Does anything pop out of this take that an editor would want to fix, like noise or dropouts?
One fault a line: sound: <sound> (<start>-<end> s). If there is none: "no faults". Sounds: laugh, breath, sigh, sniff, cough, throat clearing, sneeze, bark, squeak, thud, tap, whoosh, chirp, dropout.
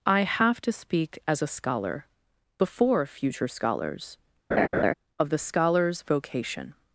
sound: laugh (4.5-4.9 s)